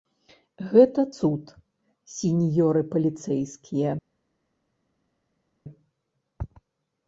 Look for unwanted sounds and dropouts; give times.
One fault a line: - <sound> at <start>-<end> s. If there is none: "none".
none